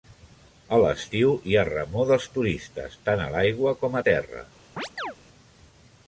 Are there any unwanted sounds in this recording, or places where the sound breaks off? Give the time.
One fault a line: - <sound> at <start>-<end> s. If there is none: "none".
- chirp at 4.8-5.2 s